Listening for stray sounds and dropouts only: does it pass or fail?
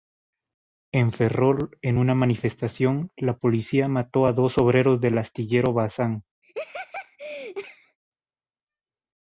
fail